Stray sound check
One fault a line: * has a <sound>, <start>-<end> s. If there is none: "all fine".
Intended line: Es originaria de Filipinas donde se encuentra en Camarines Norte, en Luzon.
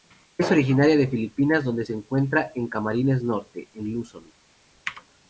all fine